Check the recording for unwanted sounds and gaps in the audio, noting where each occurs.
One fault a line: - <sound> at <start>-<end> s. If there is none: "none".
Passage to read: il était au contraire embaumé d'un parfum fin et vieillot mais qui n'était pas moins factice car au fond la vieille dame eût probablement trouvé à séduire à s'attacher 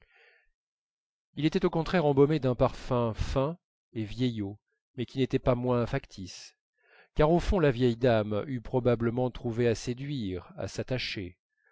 none